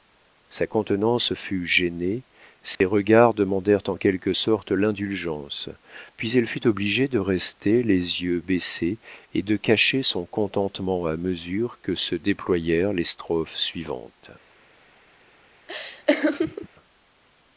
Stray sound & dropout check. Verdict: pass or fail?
fail